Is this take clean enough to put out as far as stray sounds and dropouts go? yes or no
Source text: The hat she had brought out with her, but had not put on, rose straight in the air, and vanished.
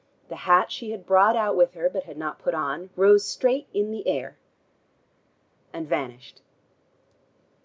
yes